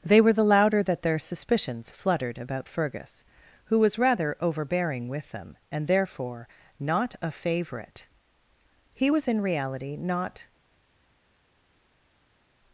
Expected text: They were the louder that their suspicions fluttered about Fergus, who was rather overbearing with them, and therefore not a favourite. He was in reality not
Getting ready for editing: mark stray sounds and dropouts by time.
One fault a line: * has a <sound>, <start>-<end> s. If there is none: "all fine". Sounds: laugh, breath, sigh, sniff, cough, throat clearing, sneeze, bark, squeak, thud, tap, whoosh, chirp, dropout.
all fine